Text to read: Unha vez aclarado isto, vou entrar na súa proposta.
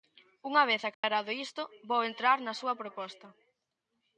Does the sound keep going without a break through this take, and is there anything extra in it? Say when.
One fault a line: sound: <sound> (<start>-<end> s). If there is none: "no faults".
sound: dropout (0.9-1.0 s)